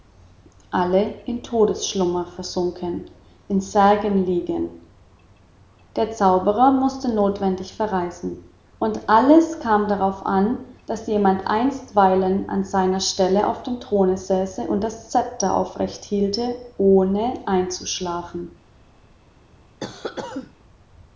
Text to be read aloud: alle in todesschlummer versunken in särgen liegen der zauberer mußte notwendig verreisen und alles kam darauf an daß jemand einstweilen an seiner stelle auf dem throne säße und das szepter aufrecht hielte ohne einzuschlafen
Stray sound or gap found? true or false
true